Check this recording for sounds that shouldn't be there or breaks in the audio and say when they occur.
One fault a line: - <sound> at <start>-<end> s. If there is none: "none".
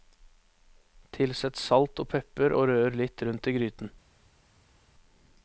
none